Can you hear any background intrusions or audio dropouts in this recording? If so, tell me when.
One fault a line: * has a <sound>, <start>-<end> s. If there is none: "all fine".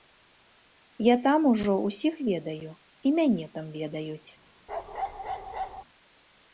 * has a bark, 4.7-5.8 s